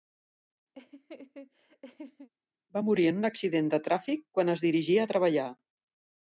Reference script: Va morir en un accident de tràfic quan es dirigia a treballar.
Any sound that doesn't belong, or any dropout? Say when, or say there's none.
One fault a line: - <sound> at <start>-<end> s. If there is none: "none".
- laugh at 0.7-2.3 s